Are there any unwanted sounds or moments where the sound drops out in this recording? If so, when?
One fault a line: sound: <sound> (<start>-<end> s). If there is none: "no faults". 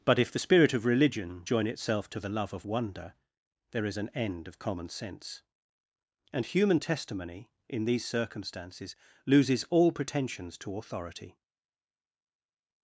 no faults